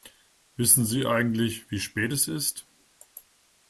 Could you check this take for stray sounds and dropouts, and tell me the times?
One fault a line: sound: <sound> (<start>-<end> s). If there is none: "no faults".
no faults